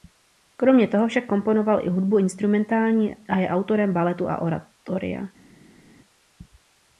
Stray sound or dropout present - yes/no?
no